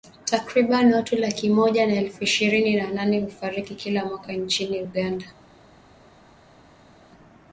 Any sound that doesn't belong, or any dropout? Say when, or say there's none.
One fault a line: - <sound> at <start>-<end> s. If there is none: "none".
none